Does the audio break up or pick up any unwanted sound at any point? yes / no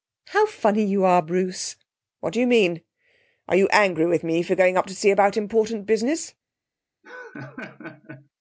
yes